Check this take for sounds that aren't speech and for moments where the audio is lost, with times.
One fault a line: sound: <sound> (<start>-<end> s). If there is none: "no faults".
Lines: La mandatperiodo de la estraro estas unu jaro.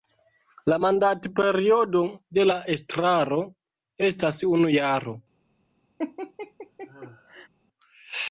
sound: laugh (6.0-7.5 s)